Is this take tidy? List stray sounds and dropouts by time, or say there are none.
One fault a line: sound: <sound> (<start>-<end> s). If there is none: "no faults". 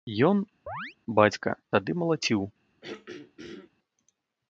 sound: chirp (0.7-1.0 s)
sound: throat clearing (2.8-3.7 s)